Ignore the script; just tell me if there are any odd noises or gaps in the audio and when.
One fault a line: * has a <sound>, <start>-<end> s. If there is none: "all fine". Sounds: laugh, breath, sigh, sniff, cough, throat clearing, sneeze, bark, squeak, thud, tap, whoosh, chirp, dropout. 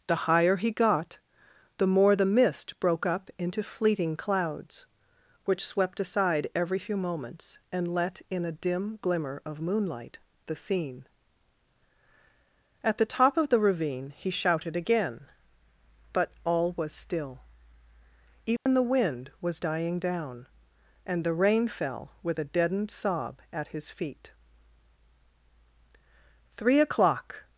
* has a dropout, 18.6-18.7 s